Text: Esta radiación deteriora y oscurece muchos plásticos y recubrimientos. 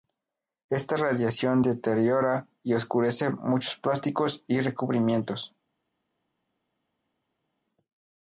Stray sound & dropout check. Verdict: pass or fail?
pass